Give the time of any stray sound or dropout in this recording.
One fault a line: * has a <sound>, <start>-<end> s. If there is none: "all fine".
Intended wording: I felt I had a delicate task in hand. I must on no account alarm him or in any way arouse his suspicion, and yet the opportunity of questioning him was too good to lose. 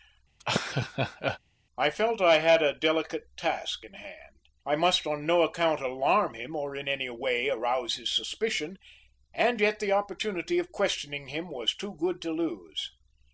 * has a laugh, 0.4-1.4 s